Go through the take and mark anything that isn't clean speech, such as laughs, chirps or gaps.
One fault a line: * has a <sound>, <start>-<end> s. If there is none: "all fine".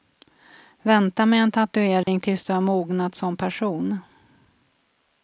* has a dropout, 2.0-2.1 s